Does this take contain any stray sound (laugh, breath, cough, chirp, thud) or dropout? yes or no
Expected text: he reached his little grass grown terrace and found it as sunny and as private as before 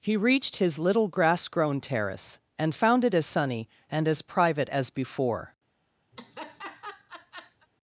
yes